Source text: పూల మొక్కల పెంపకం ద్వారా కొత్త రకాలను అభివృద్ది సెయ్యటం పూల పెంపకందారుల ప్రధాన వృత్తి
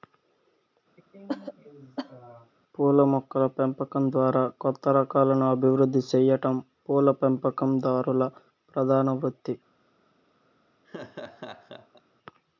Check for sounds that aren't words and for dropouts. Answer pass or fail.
fail